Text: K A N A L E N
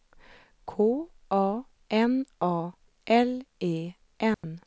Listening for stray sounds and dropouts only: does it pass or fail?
fail